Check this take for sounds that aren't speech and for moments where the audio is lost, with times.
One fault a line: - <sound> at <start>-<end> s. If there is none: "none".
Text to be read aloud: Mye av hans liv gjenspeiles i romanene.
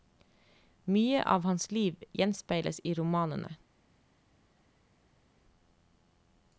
none